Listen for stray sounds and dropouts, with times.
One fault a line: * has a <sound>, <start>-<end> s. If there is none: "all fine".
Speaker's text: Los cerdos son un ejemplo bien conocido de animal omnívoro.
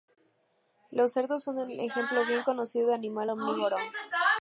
all fine